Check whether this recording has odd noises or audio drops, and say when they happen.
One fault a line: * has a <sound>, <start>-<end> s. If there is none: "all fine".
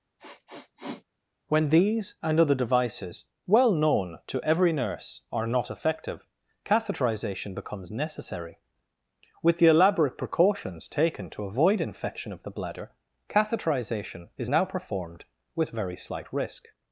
* has a sniff, 0.2-1.0 s